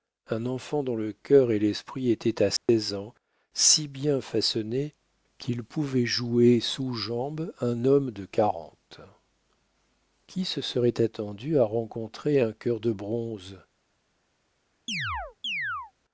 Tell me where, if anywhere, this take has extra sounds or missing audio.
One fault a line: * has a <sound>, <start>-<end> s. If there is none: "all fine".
* has a dropout, 2.6-2.7 s
* has a chirp, 14.9-15.9 s